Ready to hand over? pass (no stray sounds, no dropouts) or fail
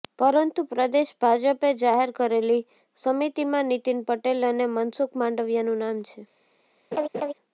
fail